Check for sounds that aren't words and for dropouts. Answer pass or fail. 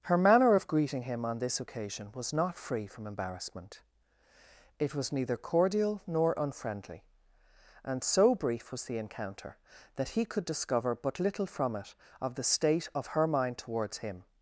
pass